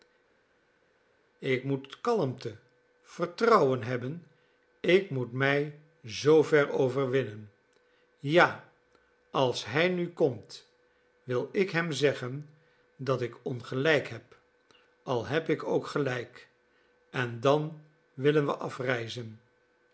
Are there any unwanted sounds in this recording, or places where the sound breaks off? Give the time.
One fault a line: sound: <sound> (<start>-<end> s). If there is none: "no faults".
no faults